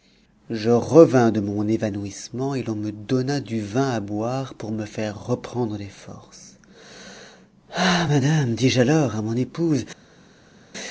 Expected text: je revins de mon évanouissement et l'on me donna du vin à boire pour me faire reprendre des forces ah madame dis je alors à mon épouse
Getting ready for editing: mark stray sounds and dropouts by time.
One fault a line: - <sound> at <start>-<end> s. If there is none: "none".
none